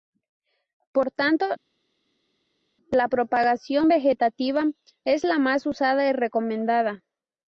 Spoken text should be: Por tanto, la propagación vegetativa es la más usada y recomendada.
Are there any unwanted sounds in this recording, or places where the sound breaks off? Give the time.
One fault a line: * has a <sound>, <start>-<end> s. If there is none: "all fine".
all fine